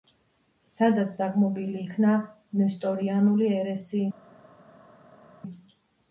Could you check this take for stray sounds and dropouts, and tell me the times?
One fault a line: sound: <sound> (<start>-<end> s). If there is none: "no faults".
no faults